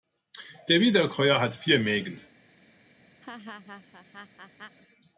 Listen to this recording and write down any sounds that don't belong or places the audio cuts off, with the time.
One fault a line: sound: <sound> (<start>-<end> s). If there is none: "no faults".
sound: laugh (3.2-4.8 s)